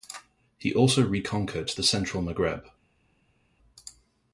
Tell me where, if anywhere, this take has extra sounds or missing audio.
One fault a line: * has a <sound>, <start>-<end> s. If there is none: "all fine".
all fine